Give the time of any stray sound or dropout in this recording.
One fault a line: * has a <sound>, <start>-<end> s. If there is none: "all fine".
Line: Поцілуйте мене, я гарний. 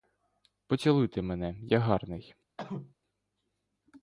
* has a cough, 2.6-3.0 s